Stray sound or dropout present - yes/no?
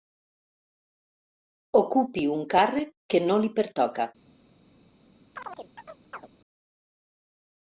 yes